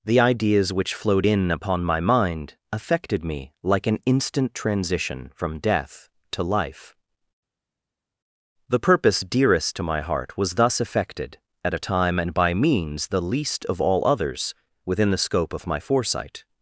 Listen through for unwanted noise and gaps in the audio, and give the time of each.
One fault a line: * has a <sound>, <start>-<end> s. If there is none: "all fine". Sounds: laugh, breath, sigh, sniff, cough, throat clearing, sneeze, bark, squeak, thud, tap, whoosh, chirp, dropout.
all fine